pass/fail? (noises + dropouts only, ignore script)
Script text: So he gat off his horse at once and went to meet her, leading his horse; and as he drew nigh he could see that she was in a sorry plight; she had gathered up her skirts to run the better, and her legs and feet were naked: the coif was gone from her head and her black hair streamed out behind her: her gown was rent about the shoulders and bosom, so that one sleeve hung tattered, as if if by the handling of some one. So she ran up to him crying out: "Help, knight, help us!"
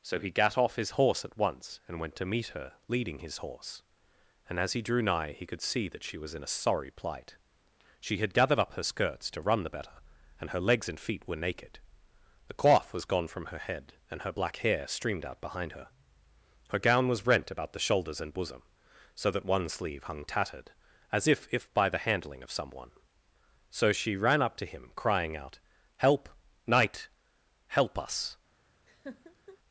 fail